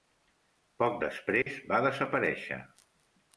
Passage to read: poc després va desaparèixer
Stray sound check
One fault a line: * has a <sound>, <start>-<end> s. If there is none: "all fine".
* has a dropout, 1.4-1.5 s